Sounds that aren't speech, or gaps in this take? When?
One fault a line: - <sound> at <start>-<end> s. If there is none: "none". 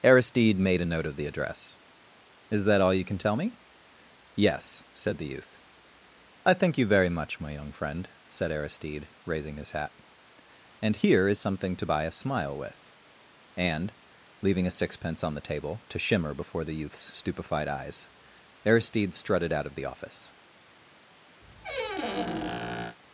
- squeak at 21.4-23.0 s